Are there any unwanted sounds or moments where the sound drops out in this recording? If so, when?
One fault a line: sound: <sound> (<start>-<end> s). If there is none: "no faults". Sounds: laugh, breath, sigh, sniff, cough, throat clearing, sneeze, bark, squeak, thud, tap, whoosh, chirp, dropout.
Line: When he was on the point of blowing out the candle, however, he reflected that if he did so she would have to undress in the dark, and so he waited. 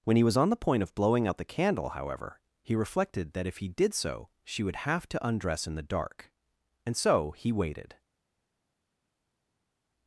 no faults